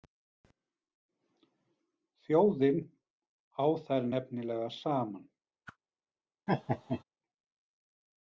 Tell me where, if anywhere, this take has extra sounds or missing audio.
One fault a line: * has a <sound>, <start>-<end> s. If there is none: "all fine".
* has a whoosh, 5.7-5.8 s
* has a laugh, 6.5-7.0 s